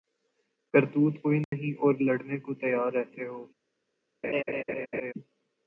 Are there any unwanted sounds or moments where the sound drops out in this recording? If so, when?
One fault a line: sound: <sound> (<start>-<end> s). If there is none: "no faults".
sound: dropout (1.4-1.5 s)
sound: laugh (4.2-5.1 s)